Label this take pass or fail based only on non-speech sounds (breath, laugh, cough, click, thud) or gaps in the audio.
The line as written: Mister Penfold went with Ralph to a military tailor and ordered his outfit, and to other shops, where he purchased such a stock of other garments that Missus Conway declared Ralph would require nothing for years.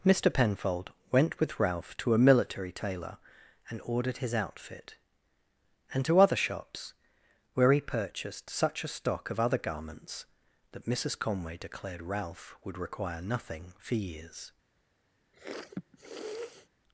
fail